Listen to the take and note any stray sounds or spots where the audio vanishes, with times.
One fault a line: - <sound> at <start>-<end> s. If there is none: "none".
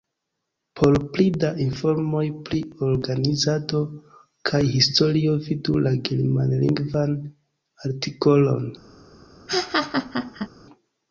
- laugh at 9.5-10.5 s